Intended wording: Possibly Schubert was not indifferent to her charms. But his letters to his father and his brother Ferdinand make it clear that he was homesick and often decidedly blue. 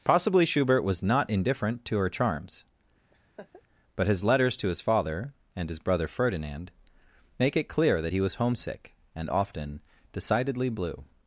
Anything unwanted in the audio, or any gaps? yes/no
yes